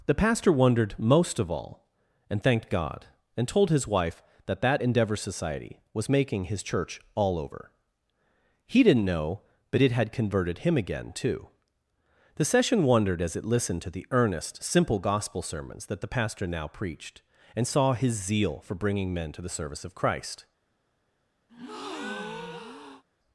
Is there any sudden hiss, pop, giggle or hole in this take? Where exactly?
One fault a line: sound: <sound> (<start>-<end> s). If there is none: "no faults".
sound: breath (21.5-23.0 s)